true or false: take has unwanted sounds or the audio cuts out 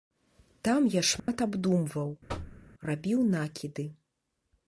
true